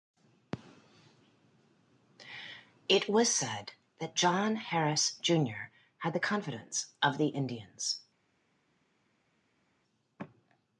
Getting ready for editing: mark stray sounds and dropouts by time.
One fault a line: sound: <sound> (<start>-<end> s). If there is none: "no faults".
no faults